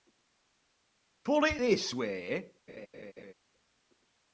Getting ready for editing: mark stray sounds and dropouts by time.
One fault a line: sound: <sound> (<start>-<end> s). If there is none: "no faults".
sound: laugh (2.7-3.3 s)